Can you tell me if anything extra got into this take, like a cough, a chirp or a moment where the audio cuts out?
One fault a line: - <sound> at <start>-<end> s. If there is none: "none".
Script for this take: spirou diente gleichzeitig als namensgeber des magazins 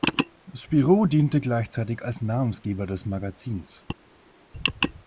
none